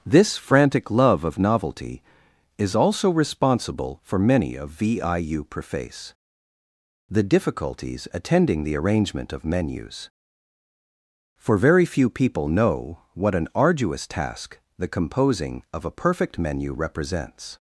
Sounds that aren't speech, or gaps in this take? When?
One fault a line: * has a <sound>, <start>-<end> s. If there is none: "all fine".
all fine